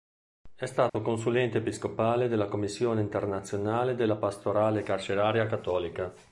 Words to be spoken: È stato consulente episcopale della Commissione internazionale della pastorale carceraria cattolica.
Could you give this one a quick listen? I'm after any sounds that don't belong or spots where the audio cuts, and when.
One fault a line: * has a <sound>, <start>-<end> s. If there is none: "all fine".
* has a dropout, 0.9-0.9 s